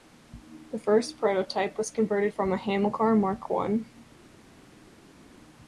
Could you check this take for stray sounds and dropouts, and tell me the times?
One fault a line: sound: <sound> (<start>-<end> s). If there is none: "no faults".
no faults